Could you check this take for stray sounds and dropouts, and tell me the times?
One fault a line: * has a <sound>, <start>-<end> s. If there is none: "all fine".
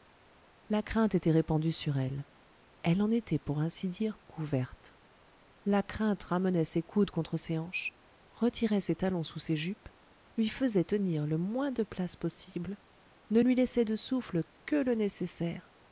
all fine